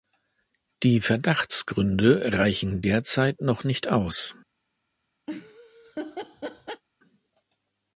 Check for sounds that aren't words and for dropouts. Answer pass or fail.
fail